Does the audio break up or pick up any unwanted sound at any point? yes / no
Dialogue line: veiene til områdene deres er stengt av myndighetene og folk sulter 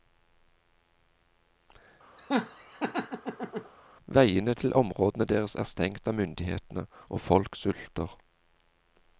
yes